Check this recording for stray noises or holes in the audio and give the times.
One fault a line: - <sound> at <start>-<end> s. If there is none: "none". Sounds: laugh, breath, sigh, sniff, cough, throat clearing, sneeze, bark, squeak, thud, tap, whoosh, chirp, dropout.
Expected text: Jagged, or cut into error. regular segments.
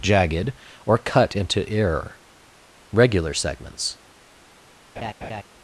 - laugh at 5.0-5.4 s